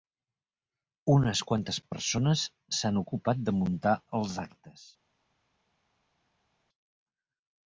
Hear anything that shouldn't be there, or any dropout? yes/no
no